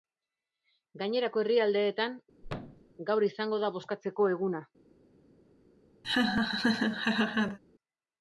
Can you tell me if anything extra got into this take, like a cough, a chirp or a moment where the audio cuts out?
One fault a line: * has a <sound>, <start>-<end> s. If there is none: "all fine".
* has a thud, 2.4-2.9 s
* has a laugh, 6.0-7.6 s